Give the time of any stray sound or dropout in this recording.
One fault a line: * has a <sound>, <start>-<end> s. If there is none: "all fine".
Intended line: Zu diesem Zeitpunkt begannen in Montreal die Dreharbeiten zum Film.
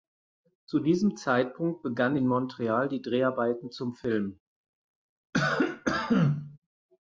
* has a cough, 5.3-6.6 s